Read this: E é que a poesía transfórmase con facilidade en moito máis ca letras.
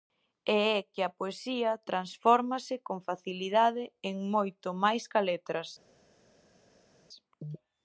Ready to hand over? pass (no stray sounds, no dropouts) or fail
pass